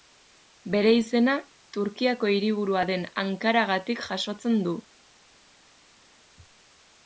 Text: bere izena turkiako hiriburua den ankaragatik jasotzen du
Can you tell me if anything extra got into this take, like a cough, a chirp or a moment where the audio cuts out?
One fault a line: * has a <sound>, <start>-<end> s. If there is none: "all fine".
all fine